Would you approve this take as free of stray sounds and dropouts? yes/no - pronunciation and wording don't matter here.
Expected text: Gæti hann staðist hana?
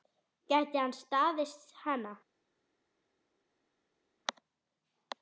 yes